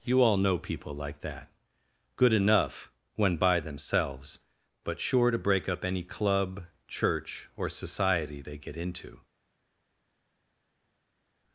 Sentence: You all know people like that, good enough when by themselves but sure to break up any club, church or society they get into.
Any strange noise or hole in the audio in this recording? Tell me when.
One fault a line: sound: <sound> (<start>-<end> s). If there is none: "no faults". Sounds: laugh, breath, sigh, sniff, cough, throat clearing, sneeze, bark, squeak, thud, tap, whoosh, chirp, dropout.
no faults